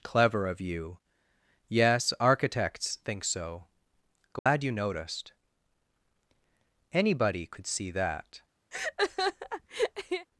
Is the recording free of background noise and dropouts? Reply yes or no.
no